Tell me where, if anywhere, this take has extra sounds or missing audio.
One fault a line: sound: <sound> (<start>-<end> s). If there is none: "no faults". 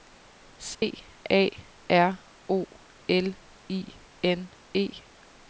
sound: dropout (0.7-0.8 s)